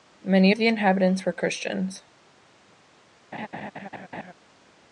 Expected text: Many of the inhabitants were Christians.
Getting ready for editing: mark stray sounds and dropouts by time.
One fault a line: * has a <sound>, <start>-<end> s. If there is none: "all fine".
* has a laugh, 3.3-4.3 s